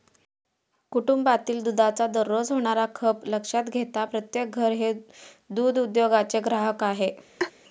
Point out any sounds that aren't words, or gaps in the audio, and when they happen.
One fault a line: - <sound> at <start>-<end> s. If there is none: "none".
- laugh at 7.4-7.5 s